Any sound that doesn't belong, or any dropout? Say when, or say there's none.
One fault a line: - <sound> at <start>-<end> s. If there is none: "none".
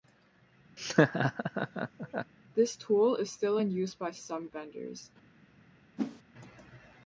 - laugh at 0.8-2.3 s
- whoosh at 6.0-6.2 s